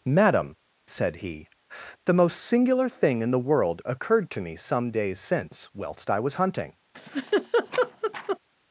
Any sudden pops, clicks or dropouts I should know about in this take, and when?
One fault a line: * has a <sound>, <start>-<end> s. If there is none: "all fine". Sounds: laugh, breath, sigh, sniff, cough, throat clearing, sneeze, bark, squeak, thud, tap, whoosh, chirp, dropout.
* has a laugh, 6.9-8.4 s